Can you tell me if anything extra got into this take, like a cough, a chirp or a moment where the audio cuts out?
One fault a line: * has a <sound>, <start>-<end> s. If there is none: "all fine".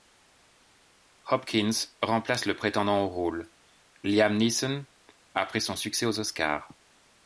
all fine